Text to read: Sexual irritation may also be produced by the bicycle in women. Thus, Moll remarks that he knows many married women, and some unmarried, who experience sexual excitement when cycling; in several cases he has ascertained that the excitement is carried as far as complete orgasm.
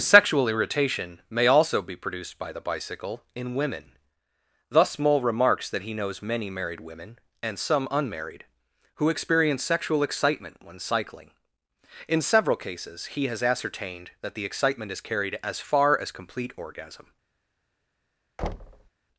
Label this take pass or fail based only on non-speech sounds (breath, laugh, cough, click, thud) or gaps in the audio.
fail